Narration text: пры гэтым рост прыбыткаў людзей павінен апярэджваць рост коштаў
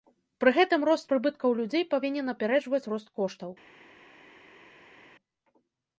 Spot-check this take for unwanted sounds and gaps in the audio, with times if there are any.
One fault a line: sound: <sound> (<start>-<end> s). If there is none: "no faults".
no faults